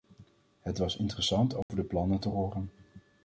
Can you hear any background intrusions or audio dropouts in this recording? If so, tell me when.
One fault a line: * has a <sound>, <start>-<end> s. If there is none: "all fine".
* has a dropout, 1.6-1.7 s